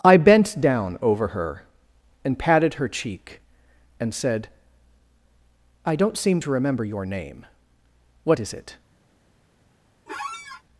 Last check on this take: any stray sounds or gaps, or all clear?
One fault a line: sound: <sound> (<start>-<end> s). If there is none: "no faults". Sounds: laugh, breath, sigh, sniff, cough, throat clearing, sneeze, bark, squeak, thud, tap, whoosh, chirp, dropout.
sound: squeak (10.1-10.6 s)